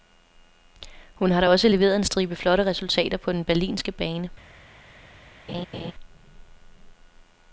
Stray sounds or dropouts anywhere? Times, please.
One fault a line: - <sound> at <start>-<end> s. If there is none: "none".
- laugh at 5.5-5.9 s